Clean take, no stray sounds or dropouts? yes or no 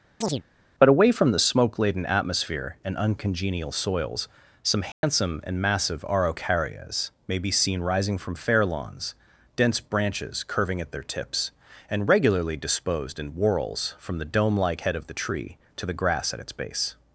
no